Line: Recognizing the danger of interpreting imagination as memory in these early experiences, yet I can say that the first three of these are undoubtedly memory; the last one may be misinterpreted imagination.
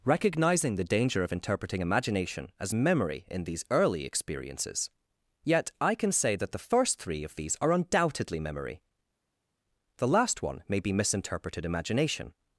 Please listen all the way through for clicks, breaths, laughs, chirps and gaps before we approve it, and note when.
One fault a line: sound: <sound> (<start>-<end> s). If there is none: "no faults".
no faults